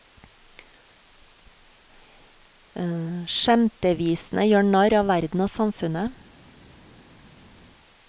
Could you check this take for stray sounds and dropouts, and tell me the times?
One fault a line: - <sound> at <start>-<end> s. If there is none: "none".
none